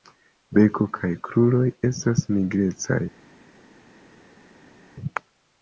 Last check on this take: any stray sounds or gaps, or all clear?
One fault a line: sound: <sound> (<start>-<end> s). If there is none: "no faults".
no faults